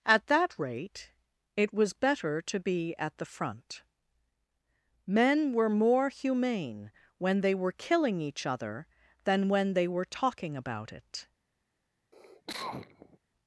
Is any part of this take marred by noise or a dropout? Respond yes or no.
yes